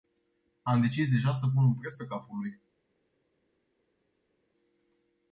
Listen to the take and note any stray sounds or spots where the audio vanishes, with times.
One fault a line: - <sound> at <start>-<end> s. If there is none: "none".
none